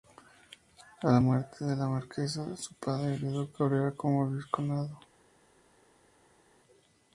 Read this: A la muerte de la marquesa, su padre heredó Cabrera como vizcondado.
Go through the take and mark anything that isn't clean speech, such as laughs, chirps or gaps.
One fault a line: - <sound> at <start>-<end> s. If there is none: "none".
none